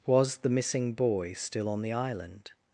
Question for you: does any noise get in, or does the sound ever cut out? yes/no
no